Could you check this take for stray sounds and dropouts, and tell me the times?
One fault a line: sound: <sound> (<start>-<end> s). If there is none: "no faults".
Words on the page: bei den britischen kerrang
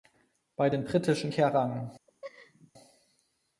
sound: laugh (2.1-2.7 s)